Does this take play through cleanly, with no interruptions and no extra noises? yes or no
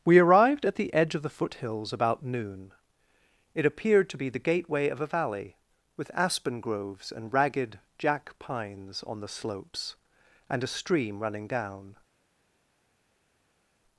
yes